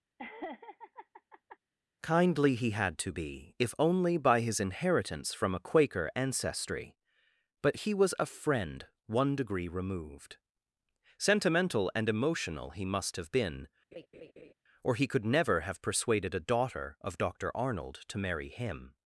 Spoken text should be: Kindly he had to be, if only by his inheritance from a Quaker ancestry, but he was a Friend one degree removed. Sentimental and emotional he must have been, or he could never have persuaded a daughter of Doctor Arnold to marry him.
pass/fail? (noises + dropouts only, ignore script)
fail